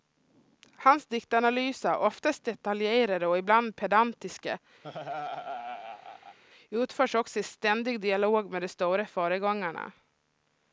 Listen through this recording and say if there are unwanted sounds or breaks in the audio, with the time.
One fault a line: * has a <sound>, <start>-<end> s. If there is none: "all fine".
* has a laugh, 4.8-6.4 s